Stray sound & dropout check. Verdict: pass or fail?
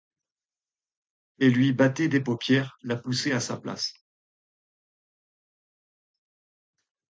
pass